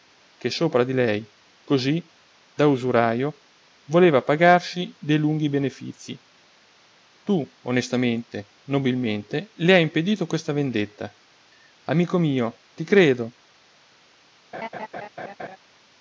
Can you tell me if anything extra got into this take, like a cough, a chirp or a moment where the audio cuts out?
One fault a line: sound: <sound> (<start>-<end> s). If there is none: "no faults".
sound: laugh (14.5-15.6 s)